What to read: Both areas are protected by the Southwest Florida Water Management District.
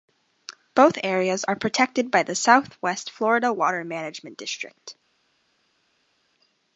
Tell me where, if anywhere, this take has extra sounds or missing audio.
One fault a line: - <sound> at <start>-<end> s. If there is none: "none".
none